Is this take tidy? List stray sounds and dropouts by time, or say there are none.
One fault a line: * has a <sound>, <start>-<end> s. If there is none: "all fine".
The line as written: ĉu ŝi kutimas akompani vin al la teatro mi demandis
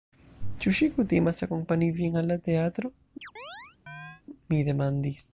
* has a chirp, 3.2-4.2 s